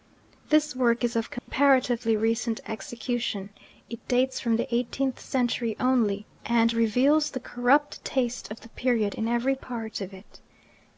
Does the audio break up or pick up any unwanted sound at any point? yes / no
yes